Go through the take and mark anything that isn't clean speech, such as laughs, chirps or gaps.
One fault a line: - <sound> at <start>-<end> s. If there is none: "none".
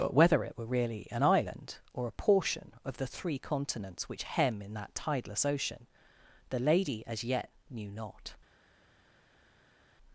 none